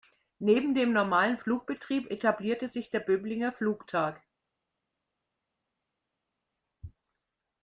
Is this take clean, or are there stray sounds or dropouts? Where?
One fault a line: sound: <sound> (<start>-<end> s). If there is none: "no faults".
no faults